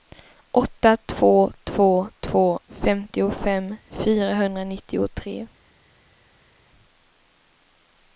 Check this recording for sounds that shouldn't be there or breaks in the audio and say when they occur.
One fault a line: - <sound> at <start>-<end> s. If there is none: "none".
none